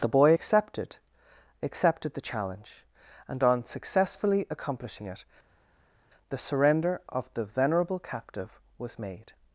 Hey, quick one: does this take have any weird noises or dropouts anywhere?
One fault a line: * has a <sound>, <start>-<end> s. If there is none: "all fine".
all fine